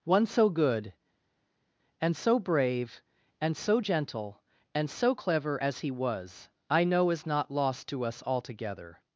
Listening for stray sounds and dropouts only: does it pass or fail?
pass